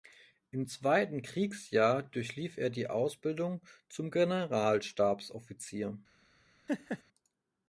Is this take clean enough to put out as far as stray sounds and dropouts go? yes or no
no